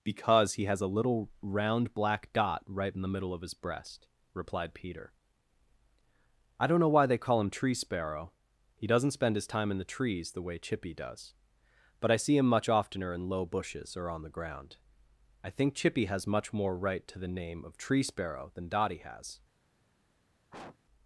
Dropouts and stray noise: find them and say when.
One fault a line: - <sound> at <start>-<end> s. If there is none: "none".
- sniff at 20.5-20.8 s